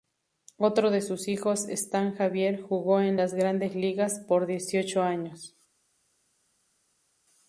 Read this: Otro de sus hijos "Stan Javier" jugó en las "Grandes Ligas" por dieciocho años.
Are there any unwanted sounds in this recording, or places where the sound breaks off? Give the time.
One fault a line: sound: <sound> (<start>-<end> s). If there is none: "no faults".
no faults